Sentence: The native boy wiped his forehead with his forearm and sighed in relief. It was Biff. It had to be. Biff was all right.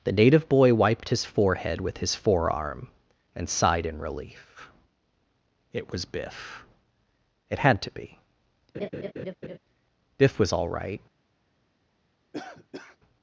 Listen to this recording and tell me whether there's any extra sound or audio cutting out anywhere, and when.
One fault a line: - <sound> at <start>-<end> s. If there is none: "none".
- laugh at 8.7-9.6 s
- cough at 12.3-13.0 s